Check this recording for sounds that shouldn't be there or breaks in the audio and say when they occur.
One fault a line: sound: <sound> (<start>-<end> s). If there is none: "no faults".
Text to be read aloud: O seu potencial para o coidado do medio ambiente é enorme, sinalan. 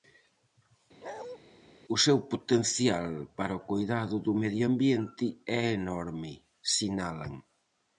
sound: bark (1.0-1.4 s)